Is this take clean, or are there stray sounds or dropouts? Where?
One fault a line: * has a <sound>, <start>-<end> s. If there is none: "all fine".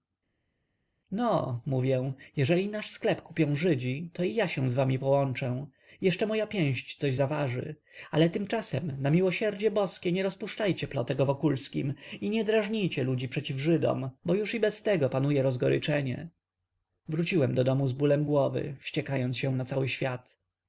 all fine